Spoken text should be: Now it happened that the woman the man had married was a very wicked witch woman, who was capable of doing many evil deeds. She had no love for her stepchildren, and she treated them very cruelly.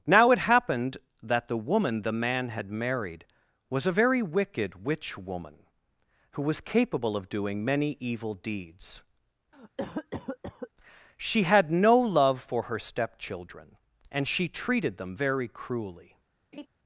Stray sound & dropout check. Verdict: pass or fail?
fail